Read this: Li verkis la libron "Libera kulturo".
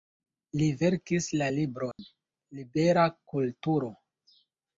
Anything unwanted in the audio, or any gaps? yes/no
yes